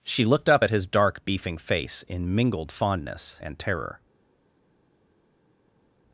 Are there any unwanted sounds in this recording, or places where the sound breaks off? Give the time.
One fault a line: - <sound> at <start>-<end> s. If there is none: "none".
none